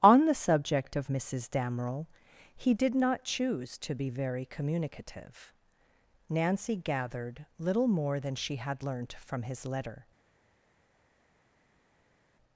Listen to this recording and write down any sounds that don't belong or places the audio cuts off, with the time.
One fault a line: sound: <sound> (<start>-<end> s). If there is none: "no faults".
no faults